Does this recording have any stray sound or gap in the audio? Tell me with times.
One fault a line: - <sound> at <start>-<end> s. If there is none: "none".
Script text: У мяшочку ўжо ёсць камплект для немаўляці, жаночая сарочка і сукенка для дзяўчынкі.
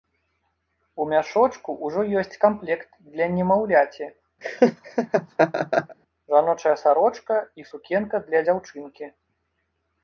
- laugh at 4.4-6.0 s